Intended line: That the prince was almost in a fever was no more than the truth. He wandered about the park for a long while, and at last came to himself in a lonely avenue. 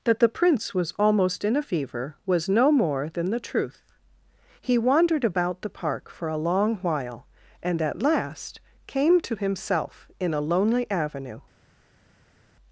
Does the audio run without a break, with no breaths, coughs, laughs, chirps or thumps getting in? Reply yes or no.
yes